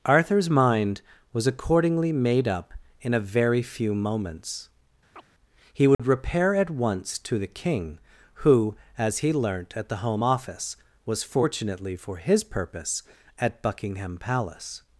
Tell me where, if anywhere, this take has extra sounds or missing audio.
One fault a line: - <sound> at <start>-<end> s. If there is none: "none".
- chirp at 5.1-5.3 s
- dropout at 5.9-6.0 s